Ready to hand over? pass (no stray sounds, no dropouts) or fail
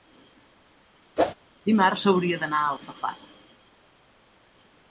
fail